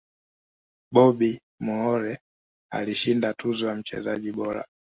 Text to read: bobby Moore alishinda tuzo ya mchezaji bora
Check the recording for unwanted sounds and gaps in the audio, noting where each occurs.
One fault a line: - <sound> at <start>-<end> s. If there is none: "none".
none